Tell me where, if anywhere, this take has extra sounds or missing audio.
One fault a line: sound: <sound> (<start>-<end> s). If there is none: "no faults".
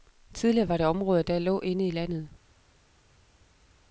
no faults